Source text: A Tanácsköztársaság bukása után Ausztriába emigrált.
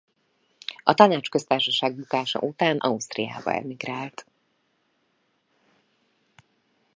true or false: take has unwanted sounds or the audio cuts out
false